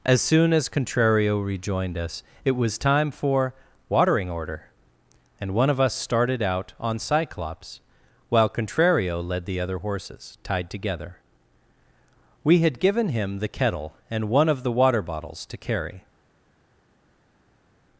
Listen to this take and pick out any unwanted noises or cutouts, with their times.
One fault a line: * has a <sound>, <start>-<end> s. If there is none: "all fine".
all fine